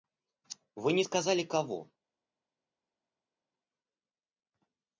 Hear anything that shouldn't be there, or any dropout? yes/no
no